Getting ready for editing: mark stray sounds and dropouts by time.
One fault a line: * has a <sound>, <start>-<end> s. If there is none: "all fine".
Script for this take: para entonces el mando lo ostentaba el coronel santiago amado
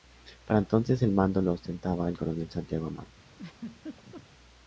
* has a laugh, 3.3-4.2 s